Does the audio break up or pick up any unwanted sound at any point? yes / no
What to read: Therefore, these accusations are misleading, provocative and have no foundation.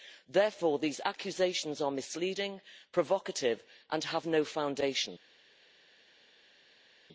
no